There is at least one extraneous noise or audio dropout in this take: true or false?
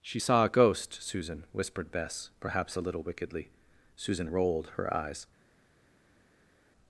false